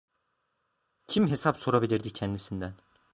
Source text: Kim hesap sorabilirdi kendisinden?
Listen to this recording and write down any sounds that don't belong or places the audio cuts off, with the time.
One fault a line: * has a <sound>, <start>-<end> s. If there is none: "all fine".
all fine